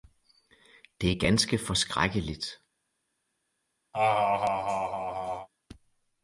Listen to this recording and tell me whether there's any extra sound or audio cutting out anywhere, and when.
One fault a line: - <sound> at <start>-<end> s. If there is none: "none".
- laugh at 3.9-5.5 s